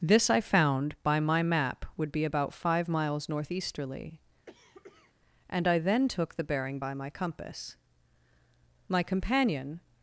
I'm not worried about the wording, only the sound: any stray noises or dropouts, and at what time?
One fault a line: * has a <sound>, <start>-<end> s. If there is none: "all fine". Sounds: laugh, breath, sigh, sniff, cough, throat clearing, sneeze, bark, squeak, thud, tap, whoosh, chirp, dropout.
* has a cough, 4.5-5.1 s